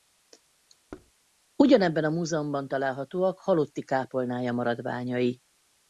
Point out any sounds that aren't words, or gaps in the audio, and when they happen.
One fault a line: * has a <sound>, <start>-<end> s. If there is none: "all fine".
* has a thud, 0.9-1.1 s